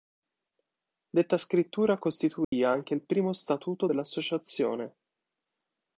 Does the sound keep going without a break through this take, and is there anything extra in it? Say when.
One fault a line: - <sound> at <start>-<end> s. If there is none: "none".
- dropout at 2.4-2.5 s